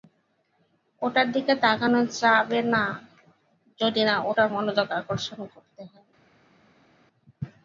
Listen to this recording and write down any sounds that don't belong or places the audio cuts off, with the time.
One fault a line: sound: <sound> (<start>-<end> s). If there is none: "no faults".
no faults